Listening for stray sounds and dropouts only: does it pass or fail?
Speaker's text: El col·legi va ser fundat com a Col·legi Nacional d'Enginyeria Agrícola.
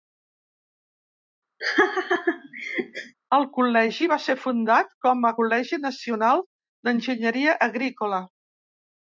fail